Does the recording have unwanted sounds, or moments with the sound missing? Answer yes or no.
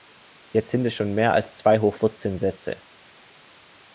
no